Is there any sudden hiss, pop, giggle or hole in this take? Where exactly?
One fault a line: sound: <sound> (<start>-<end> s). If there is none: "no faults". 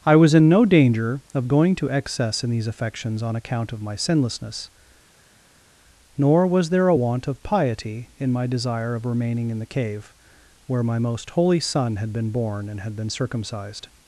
no faults